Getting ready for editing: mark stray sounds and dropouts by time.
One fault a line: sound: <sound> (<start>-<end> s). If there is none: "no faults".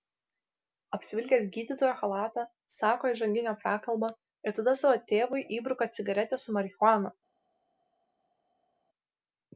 no faults